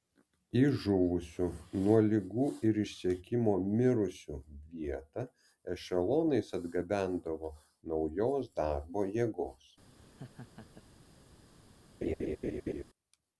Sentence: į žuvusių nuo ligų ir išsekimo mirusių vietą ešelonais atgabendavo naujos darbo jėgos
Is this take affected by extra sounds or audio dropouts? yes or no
yes